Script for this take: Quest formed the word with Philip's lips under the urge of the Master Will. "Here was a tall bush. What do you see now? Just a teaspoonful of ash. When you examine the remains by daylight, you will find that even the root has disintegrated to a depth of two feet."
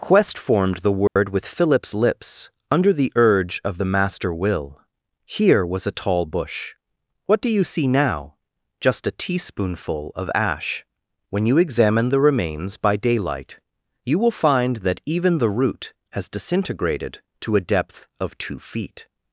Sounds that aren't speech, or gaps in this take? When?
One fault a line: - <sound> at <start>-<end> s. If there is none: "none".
- dropout at 1.1-1.2 s